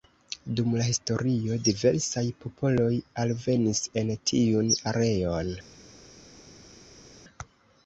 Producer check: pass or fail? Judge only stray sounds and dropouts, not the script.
pass